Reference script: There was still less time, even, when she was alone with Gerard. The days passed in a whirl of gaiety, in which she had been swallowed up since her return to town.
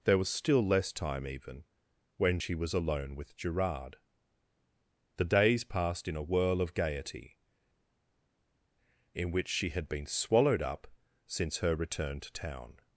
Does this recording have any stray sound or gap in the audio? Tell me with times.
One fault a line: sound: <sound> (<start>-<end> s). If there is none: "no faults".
no faults